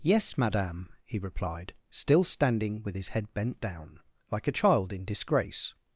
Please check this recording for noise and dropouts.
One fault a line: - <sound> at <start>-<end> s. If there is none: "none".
none